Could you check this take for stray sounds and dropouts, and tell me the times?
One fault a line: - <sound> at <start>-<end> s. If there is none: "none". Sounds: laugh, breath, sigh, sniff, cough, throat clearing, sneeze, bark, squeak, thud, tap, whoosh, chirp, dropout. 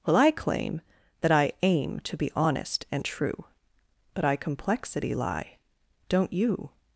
none